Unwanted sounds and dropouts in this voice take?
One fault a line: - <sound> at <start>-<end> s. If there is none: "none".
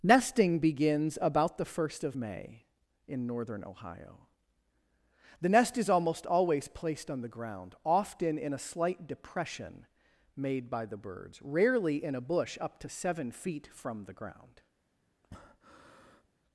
- breath at 15.2-16.3 s